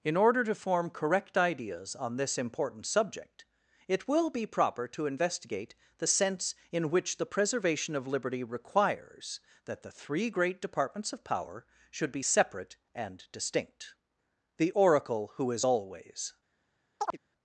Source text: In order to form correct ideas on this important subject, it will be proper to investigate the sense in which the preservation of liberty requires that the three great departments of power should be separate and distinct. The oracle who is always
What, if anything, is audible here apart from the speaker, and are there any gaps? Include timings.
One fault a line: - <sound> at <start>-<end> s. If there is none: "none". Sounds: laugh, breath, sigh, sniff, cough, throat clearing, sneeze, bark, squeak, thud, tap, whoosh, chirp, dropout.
- chirp at 17.0-17.2 s